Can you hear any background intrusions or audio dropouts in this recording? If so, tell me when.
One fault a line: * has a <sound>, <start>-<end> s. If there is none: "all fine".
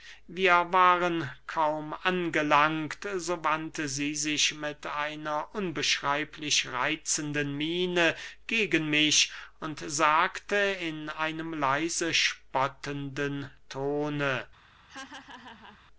* has a laugh, 14.9-15.8 s